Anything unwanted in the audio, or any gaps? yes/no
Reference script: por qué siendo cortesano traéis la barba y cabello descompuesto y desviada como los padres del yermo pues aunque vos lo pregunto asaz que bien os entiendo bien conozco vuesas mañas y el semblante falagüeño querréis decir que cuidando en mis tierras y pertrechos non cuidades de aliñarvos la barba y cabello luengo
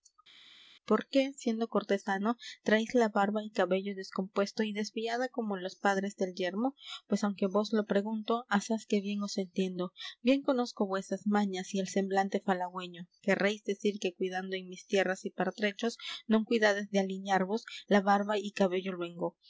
no